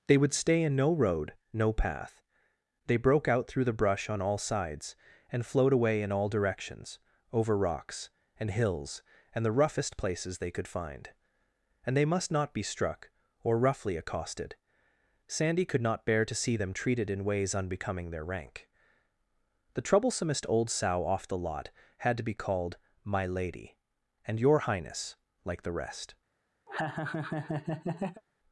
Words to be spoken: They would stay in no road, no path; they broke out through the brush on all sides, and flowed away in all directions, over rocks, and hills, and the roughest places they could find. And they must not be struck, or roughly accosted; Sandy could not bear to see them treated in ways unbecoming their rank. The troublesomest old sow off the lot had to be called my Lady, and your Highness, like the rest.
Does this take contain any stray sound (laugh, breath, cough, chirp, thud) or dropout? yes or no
yes